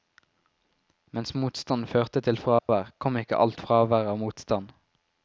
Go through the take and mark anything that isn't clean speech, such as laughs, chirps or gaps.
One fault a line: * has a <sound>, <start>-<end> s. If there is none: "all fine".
* has a dropout, 2.6-2.7 s